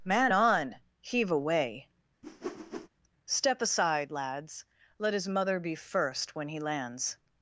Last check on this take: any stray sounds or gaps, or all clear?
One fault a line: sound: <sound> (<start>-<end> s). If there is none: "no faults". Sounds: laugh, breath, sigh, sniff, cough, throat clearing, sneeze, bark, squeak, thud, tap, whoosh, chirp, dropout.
sound: whoosh (2.2-2.9 s)